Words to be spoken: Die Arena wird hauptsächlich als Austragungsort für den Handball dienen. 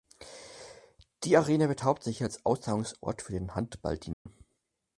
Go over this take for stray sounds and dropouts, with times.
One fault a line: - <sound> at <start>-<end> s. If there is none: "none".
- dropout at 4.1-4.3 s